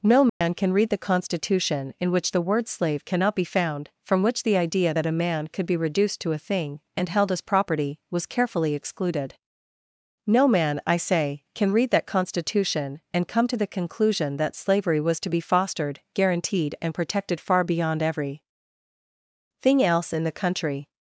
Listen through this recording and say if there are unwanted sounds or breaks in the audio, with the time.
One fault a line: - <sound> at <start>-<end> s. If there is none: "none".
- dropout at 0.3-0.4 s